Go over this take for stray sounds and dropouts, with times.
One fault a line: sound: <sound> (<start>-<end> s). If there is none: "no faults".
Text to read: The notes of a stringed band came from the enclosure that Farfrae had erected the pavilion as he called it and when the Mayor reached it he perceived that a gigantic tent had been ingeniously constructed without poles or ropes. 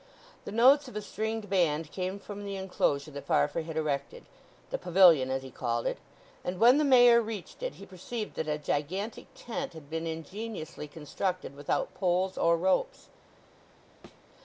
sound: thud (14.0-14.2 s)